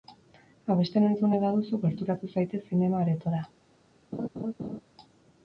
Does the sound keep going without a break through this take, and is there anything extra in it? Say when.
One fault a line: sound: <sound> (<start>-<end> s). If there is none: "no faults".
sound: laugh (4.1-4.8 s)